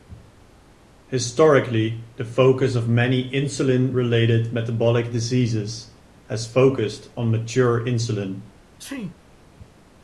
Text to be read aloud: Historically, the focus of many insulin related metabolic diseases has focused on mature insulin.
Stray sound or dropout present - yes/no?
yes